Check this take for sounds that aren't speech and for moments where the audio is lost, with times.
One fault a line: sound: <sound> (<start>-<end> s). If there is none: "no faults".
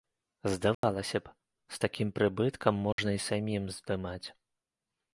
sound: dropout (0.7-0.8 s)
sound: dropout (2.9-3.0 s)